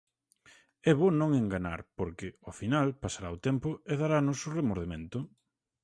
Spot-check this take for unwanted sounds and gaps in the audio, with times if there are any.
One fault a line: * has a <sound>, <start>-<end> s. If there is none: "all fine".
all fine